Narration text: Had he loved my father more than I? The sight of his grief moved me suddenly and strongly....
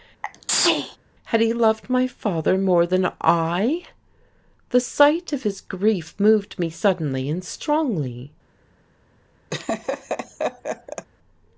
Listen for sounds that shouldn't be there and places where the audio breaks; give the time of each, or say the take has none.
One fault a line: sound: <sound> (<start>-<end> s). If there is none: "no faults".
sound: sneeze (0.2-1.0 s)
sound: laugh (9.5-11.1 s)